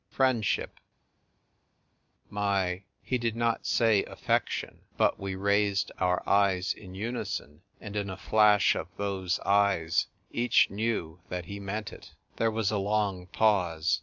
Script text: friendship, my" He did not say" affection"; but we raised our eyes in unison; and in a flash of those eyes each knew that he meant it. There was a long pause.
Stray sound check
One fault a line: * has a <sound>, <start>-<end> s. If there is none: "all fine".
all fine